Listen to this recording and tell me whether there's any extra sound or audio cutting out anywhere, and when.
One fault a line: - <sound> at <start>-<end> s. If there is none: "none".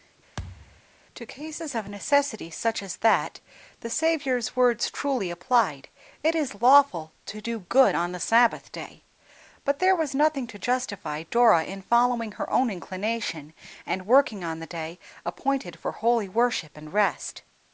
- thud at 0.4-0.8 s